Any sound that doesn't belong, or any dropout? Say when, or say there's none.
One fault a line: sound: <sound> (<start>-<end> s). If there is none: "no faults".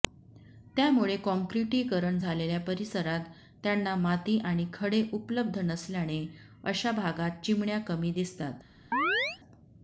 sound: chirp (8.9-9.4 s)